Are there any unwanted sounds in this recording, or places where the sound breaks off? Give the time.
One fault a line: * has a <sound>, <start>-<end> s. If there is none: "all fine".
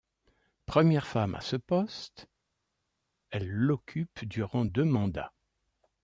all fine